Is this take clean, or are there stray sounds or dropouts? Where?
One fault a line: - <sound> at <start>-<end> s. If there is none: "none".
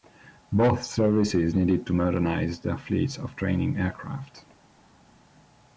none